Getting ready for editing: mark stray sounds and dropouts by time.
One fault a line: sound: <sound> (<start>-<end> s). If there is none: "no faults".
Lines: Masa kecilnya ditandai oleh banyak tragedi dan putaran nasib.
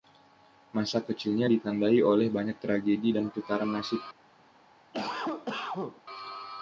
sound: cough (4.9-6.0 s)